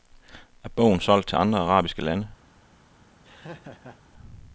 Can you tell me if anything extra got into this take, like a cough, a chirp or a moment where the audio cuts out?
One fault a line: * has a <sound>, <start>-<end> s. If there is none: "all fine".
* has a laugh, 3.2-4.0 s